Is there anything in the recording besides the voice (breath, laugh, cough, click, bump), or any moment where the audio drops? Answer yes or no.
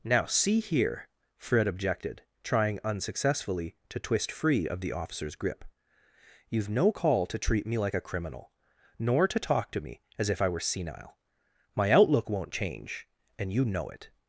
no